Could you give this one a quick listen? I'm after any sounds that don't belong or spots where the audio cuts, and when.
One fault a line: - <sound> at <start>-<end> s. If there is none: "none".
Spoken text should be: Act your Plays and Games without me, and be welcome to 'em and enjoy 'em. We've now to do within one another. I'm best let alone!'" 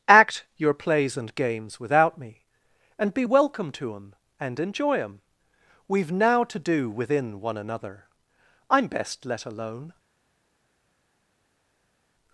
none